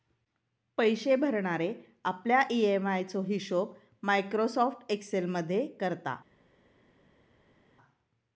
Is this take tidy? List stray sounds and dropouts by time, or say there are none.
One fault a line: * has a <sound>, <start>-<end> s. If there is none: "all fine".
all fine